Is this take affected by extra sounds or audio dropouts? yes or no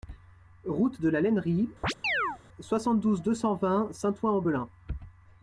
yes